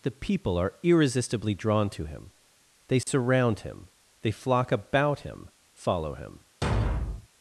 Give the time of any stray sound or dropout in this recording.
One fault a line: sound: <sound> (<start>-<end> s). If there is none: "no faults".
sound: dropout (3.0-3.1 s)
sound: thud (6.6-7.3 s)